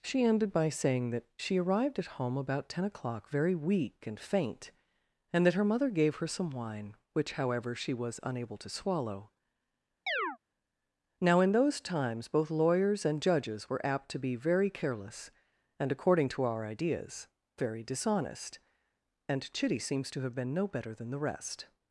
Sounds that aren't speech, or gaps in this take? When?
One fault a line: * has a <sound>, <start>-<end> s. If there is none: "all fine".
* has a chirp, 10.1-10.4 s